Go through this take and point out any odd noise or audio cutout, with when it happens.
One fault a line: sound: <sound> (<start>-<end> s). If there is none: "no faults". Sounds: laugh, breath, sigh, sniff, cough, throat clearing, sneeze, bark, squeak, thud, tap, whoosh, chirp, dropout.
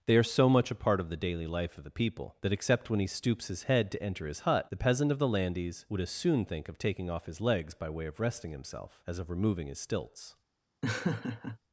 sound: laugh (10.8-11.6 s)